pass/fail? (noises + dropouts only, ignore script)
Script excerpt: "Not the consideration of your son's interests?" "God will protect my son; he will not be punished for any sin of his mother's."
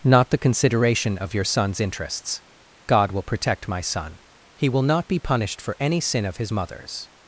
pass